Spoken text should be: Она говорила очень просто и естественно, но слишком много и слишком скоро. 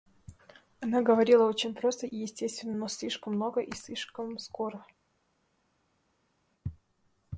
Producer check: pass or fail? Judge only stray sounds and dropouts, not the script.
pass